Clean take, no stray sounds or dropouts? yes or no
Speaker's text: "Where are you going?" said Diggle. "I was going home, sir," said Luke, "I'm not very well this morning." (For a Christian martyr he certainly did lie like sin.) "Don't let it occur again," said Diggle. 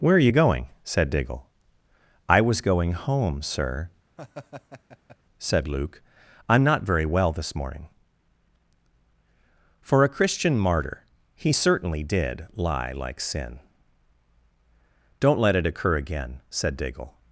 no